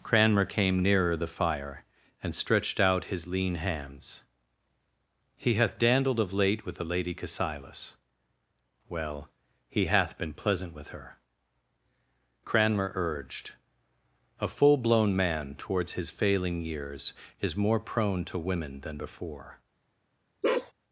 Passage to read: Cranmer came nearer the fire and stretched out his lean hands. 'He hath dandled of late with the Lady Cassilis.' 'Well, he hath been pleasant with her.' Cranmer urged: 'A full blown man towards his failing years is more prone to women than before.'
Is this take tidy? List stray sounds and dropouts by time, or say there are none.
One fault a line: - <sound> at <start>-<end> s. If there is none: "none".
- bark at 20.4-20.7 s